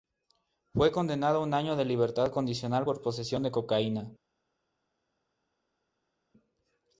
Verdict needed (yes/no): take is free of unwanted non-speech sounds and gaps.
yes